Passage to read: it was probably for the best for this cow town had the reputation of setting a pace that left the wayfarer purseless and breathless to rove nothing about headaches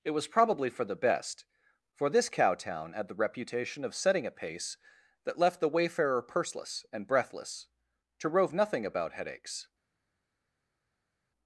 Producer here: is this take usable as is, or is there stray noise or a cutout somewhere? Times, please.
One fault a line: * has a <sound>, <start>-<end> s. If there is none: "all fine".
all fine